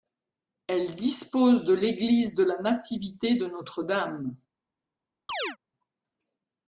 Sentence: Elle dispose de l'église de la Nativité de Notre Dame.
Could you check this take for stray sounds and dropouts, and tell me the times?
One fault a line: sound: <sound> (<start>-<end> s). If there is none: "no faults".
sound: chirp (5.3-5.6 s)